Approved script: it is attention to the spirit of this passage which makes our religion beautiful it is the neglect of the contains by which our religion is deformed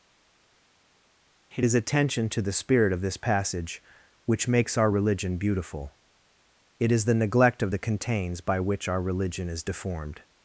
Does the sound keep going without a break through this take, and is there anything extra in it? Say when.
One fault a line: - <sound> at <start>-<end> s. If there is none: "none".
none